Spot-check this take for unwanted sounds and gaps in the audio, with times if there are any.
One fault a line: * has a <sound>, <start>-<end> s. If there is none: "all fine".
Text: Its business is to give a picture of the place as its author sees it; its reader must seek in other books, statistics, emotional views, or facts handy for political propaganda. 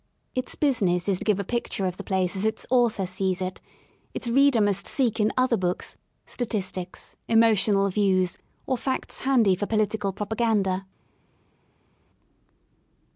all fine